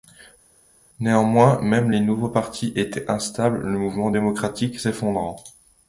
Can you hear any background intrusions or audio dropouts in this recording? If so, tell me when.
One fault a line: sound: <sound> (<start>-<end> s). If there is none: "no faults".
no faults